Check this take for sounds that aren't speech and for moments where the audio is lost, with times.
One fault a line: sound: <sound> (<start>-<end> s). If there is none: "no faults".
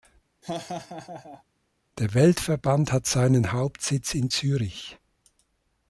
sound: laugh (0.4-1.4 s)